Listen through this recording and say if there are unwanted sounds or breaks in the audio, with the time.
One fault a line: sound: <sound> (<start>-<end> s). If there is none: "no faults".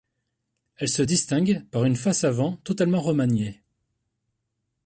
no faults